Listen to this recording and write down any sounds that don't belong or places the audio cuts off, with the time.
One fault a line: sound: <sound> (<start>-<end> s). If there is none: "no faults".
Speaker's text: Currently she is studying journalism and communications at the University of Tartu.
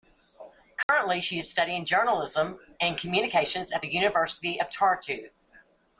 sound: dropout (0.8-0.9 s)